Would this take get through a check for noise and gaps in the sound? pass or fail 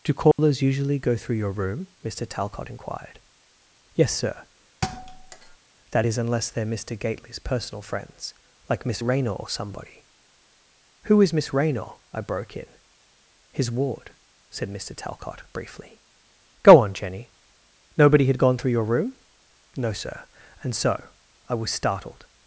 fail